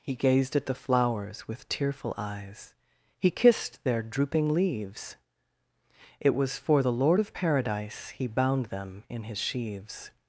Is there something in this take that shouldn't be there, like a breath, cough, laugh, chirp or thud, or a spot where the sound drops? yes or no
no